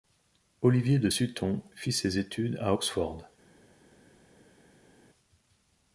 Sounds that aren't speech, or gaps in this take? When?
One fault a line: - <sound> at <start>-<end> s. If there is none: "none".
none